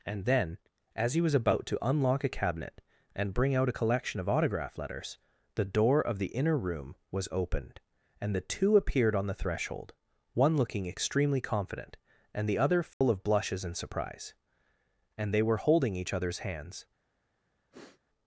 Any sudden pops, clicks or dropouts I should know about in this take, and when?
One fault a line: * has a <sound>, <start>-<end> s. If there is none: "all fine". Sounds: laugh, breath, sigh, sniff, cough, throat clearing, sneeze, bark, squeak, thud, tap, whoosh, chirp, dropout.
* has a dropout, 12.9-13.0 s
* has a sniff, 17.7-18.0 s